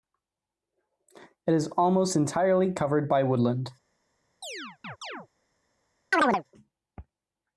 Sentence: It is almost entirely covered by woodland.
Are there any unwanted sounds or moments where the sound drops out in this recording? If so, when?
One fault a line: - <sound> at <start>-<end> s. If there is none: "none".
- chirp at 4.4-5.3 s
- chirp at 6.1-6.4 s